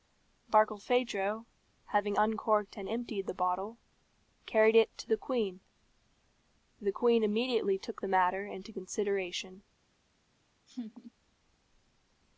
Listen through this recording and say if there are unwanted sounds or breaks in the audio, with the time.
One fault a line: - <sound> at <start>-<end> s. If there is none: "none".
- laugh at 10.7-11.1 s